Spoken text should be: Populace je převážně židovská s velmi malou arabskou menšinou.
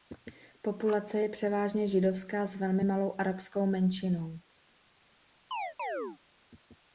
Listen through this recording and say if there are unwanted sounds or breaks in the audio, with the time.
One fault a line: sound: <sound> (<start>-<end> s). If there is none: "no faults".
sound: chirp (5.5-6.2 s)